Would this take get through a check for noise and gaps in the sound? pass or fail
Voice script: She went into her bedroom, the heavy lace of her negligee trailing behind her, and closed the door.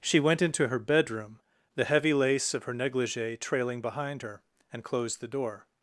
pass